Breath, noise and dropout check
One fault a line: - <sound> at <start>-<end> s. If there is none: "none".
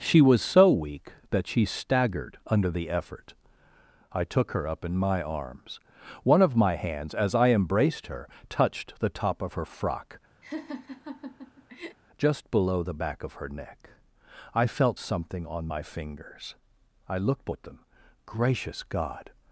- laugh at 10.4-12.0 s